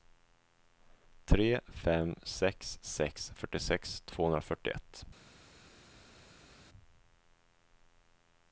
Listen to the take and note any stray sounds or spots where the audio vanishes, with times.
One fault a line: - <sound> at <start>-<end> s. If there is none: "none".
none